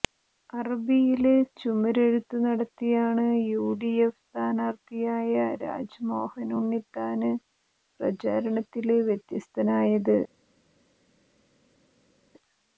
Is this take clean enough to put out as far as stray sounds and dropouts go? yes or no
yes